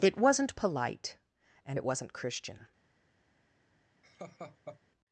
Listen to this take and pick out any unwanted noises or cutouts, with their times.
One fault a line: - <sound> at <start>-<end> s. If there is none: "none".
- laugh at 4.0-4.8 s